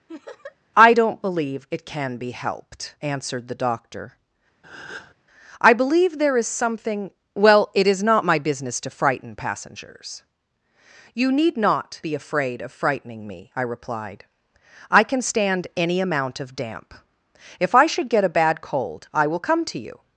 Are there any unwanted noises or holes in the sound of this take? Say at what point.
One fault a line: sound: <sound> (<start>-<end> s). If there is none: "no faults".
sound: laugh (0.1-0.6 s)
sound: breath (4.6-5.1 s)